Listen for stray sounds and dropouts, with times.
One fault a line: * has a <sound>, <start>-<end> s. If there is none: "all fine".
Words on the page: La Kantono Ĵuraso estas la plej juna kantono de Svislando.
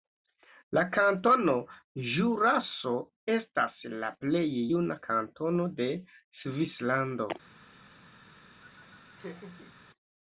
* has a laugh, 8.6-9.7 s